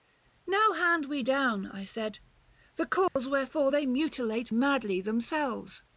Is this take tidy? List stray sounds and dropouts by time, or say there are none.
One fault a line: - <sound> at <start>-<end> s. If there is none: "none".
- dropout at 3.1-3.2 s